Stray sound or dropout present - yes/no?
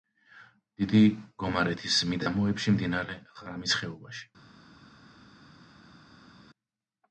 no